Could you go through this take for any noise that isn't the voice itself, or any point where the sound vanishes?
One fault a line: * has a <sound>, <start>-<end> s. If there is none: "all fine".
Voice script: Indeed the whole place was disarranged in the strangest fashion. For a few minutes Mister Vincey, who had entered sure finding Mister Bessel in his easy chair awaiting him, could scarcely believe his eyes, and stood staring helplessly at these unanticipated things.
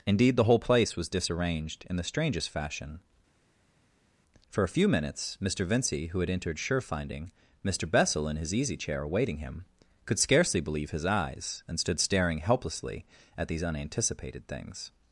all fine